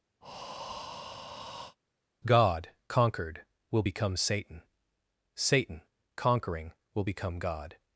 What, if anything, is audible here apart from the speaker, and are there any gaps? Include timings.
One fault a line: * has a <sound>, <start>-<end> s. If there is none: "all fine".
* has a breath, 0.2-1.8 s